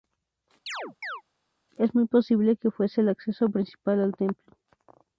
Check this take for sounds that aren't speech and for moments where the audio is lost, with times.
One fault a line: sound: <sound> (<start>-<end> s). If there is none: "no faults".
sound: chirp (0.7-1.2 s)